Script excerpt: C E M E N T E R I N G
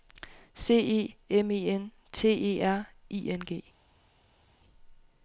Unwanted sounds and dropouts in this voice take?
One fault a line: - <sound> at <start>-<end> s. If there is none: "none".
none